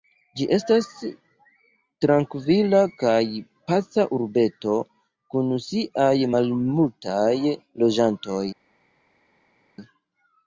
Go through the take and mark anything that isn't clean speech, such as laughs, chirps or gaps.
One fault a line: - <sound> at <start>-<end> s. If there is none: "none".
none